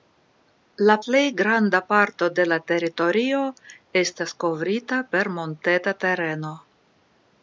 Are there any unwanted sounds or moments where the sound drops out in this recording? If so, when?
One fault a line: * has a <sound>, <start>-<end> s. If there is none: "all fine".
all fine